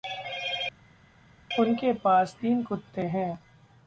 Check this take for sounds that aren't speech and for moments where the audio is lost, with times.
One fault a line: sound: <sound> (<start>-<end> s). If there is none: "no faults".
no faults